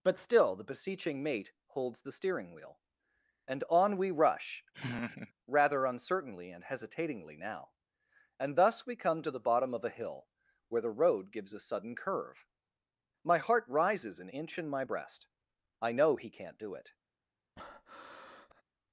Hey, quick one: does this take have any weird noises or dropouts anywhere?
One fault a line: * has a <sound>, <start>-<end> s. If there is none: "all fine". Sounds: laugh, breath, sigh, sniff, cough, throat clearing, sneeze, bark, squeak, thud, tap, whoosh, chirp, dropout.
* has a laugh, 4.7-5.3 s
* has a breath, 17.6-18.6 s